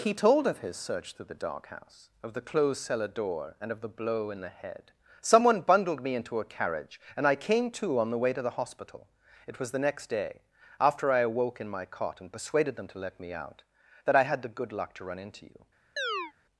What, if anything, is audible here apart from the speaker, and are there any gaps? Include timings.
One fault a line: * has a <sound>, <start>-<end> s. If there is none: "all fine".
* has a chirp, 16.0-16.3 s